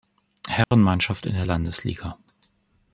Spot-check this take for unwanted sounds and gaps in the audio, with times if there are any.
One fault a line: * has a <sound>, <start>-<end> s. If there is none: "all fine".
* has a dropout, 0.6-0.7 s